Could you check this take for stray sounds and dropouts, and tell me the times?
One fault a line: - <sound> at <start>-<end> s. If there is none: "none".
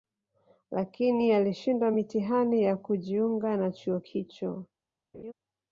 - laugh at 5.1-5.3 s